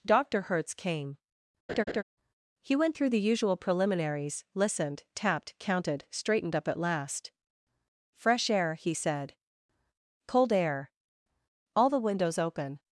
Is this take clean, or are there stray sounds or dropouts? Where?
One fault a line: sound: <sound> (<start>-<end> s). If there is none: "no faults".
sound: laugh (1.7-2.0 s)